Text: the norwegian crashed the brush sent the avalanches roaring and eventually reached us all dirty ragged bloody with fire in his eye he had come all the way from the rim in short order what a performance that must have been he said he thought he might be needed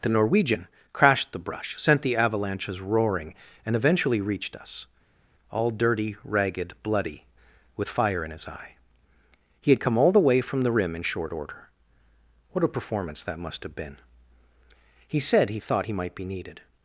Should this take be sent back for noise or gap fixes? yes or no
no